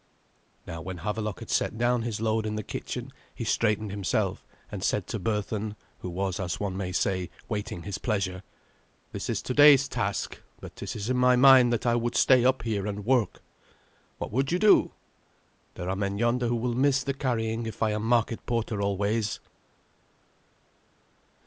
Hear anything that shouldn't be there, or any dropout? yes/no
no